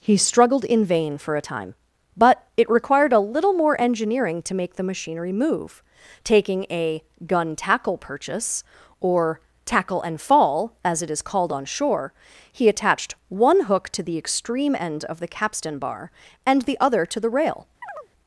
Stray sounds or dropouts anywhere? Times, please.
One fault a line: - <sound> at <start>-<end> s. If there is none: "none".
- chirp at 17.8-18.1 s